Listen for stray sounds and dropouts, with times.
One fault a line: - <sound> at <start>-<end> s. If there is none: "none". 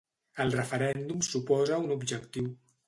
none